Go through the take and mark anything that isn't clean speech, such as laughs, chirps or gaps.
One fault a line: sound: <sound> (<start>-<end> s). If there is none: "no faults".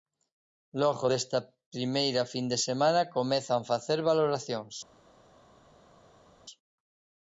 no faults